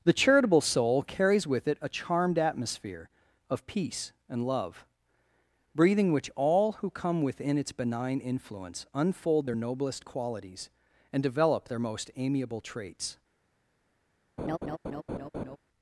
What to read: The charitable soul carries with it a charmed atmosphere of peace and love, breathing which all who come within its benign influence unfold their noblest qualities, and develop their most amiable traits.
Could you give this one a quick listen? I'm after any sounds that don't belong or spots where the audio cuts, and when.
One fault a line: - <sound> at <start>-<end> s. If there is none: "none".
- laugh at 14.4-15.6 s